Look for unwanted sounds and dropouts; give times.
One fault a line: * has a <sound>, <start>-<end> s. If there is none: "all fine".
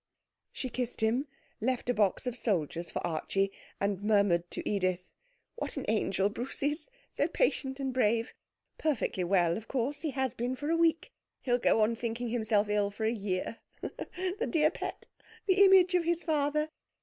all fine